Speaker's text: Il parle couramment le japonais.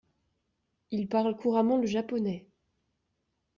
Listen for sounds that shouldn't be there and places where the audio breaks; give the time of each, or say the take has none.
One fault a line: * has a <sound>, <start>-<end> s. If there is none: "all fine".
all fine